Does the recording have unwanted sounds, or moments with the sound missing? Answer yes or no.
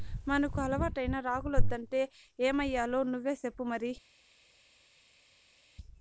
no